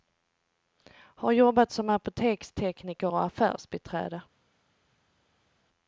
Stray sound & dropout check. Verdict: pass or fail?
pass